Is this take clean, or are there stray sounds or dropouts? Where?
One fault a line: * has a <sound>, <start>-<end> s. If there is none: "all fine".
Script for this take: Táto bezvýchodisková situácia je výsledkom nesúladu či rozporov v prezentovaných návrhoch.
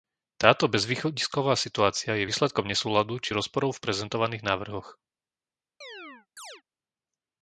* has a chirp, 5.8-6.6 s